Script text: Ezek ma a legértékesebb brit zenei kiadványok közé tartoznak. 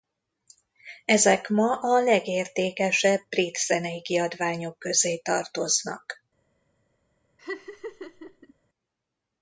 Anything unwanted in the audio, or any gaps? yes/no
yes